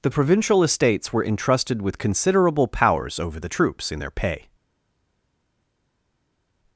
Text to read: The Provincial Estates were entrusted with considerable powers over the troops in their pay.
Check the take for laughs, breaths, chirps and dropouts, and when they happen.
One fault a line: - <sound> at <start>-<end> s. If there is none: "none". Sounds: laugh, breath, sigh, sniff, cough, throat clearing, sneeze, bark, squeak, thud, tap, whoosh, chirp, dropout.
none